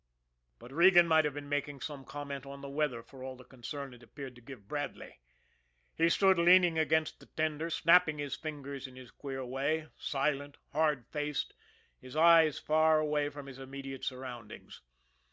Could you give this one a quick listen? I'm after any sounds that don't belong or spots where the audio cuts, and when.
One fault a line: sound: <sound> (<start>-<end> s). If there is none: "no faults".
no faults